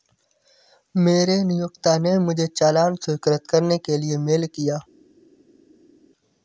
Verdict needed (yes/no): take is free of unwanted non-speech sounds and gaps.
yes